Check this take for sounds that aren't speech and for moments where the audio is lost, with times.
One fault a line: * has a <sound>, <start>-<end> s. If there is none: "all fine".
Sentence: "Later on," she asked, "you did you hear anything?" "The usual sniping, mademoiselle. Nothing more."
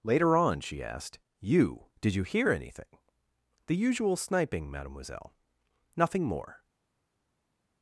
all fine